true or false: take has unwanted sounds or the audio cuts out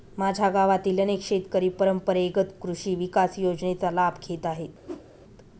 true